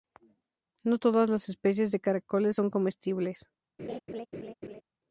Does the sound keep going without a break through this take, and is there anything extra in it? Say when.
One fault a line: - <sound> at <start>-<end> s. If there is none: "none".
- laugh at 3.8-4.8 s